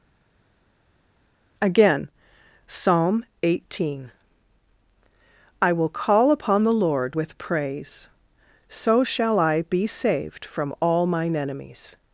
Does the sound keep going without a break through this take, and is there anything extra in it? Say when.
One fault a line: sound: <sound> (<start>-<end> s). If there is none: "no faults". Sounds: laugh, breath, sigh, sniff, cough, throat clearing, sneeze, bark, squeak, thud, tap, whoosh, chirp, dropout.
no faults